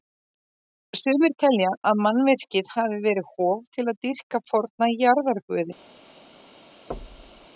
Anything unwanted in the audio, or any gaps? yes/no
yes